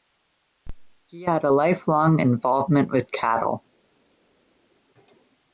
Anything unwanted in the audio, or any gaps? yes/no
no